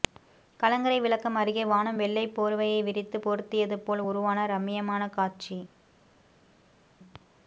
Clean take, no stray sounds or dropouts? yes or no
yes